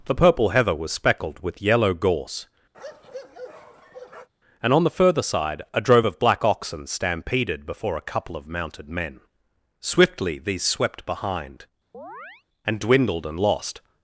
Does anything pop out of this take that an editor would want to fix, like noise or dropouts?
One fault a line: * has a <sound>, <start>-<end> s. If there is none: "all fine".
* has a bark, 2.7-4.3 s
* has a chirp, 11.9-12.4 s